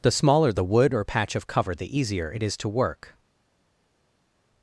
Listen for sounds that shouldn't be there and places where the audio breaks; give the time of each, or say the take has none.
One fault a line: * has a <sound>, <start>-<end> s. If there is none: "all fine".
all fine